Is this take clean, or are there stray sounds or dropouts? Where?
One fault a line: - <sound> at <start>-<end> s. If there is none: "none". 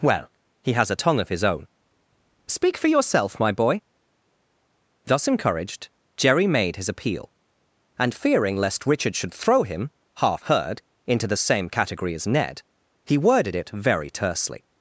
none